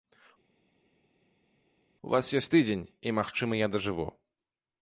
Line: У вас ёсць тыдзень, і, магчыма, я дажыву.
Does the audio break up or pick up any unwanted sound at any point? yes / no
no